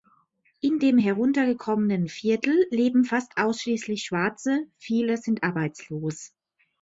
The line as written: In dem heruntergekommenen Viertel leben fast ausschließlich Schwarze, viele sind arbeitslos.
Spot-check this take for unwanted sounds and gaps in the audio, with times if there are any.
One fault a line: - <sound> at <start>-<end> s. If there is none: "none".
none